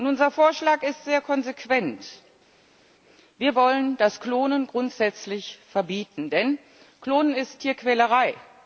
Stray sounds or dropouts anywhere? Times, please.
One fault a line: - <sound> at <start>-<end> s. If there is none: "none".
none